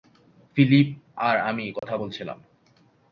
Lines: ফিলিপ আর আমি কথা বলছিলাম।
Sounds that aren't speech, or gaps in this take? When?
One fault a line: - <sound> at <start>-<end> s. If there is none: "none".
- dropout at 1.8-1.8 s